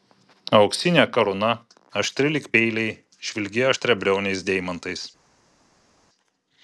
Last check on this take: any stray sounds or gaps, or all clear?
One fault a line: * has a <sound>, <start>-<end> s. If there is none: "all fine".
all fine